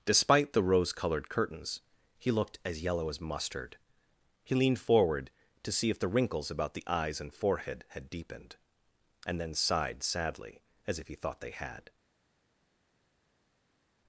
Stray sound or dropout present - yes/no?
no